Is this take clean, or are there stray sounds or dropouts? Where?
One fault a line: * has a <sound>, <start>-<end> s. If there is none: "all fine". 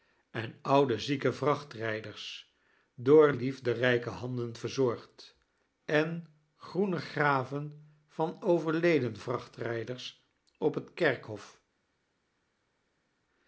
all fine